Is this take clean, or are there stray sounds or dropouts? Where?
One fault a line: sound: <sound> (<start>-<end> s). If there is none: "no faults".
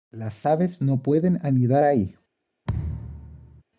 sound: thud (2.7-3.6 s)